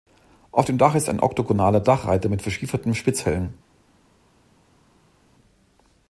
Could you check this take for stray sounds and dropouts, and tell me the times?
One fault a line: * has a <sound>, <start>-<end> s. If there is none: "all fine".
all fine